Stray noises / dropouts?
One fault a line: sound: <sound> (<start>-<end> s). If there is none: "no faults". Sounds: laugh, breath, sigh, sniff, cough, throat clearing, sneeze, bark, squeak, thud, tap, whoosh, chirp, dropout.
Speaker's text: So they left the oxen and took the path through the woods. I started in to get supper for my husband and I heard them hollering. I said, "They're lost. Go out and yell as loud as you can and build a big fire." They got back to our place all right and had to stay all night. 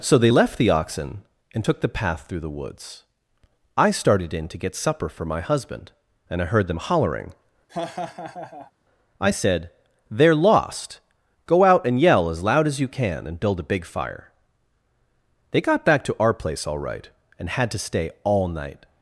sound: laugh (7.7-8.7 s)